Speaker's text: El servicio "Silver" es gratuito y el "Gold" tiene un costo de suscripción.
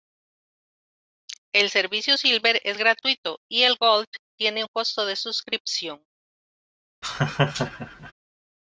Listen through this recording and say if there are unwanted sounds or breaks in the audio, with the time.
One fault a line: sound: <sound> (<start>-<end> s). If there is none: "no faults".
sound: laugh (7.0-8.1 s)